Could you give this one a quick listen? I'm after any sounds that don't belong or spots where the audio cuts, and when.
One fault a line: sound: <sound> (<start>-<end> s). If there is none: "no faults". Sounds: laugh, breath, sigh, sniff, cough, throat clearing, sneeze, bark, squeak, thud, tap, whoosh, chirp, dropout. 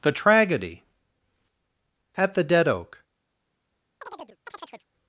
sound: chirp (4.0-4.9 s)